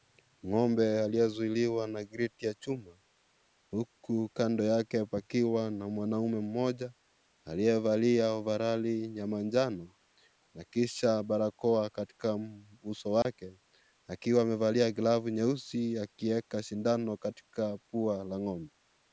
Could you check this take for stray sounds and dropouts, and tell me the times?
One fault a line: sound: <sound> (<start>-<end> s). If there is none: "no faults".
sound: dropout (13.2-13.3 s)